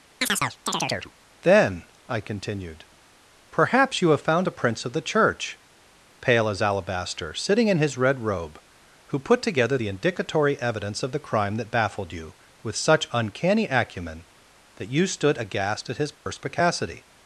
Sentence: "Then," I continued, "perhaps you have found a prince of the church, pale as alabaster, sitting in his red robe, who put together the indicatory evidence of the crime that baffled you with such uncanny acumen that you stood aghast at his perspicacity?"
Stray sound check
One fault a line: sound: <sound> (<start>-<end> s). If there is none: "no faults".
sound: chirp (0.2-1.1 s)
sound: dropout (16.1-16.3 s)